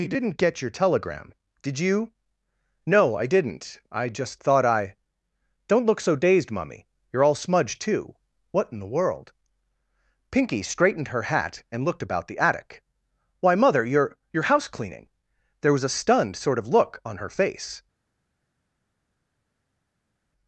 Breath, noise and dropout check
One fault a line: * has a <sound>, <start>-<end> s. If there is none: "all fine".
all fine